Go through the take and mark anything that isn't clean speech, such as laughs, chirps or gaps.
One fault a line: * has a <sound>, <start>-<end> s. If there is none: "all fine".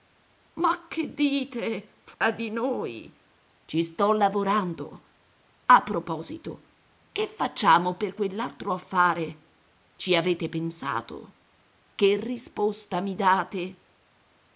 * has a dropout, 2.1-2.2 s